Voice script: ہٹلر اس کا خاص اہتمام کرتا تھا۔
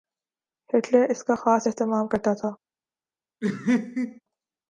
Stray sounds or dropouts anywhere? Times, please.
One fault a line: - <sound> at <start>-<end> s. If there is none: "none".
- laugh at 3.4-4.2 s